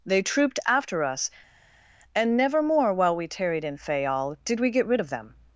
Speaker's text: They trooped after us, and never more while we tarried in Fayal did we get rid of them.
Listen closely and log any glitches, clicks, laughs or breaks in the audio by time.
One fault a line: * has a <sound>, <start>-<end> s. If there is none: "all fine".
all fine